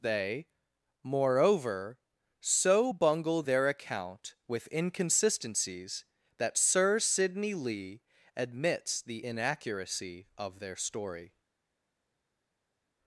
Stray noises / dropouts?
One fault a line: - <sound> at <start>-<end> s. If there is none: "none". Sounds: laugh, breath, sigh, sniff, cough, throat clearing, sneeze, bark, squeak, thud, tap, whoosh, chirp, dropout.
none